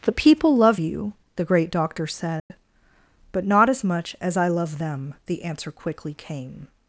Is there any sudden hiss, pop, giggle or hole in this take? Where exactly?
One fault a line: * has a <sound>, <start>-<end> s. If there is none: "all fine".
* has a dropout, 2.4-2.5 s